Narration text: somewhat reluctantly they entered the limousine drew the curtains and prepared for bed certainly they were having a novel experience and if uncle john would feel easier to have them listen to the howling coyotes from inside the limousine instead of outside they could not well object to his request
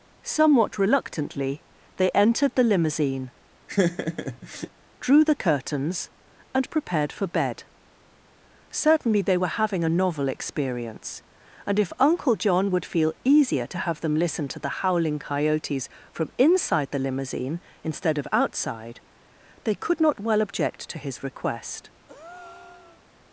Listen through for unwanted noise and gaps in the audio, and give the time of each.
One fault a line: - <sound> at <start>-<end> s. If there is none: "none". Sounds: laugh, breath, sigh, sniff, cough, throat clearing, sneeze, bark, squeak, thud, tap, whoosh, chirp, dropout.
- laugh at 3.7-4.7 s
- breath at 22.1-23.0 s